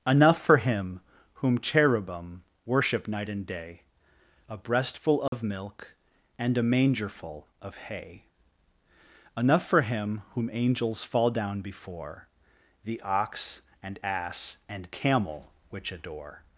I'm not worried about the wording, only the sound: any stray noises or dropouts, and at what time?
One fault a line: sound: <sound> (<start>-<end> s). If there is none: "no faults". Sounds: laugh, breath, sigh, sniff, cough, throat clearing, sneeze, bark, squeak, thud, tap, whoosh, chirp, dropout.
sound: dropout (5.3-5.3 s)